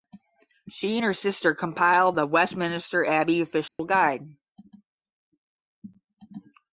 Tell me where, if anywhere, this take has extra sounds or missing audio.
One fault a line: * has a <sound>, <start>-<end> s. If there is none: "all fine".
* has a dropout, 3.7-3.8 s